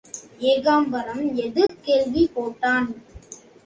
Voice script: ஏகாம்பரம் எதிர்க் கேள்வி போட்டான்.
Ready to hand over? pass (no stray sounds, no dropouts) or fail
fail